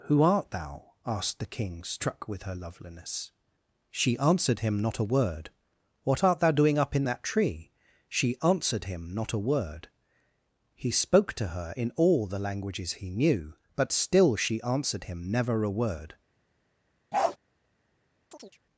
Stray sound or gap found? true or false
true